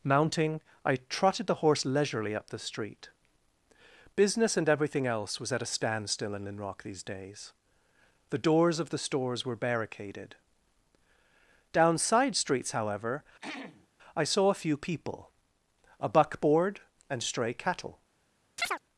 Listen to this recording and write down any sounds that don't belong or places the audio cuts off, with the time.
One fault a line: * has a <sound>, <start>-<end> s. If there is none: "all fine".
* has a throat clearing, 13.4-13.9 s
* has a chirp, 18.6-18.8 s